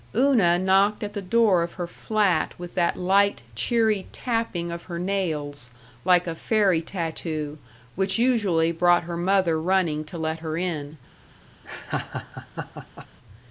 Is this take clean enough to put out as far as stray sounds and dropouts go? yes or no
no